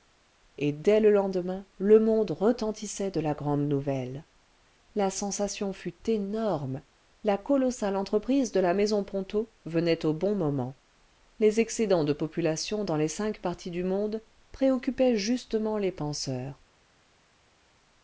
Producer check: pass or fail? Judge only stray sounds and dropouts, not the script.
pass